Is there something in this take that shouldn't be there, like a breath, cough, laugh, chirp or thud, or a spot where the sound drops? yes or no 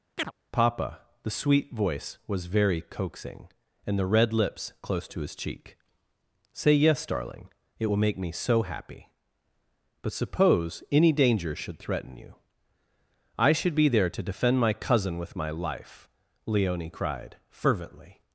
yes